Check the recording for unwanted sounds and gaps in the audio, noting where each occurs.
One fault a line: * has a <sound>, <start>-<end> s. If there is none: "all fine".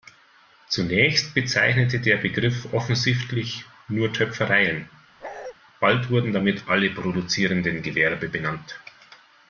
* has a bark, 5.2-5.5 s